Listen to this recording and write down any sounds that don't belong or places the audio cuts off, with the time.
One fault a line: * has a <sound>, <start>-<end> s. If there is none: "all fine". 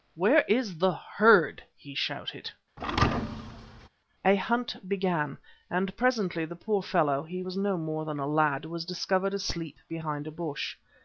* has a thud, 2.8-3.9 s